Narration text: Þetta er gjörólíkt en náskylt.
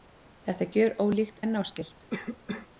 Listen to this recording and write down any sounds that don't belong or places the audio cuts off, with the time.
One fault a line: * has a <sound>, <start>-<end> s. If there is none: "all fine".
* has a cough, 2.1-2.7 s